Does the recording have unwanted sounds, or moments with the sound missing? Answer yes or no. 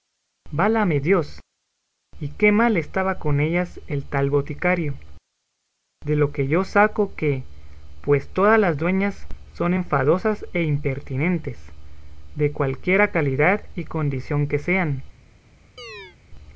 yes